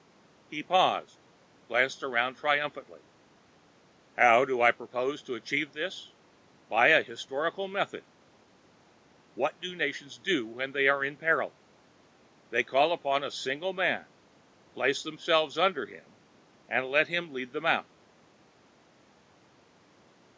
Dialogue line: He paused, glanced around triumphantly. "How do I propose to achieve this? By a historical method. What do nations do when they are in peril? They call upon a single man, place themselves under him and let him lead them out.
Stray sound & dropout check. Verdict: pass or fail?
pass